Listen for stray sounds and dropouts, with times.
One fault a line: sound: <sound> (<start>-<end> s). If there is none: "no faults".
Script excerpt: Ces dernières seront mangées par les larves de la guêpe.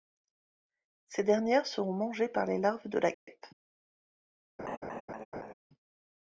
sound: dropout (3.1-3.3 s)
sound: laugh (4.6-5.5 s)